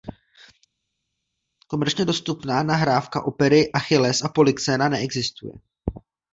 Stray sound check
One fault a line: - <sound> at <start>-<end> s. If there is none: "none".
none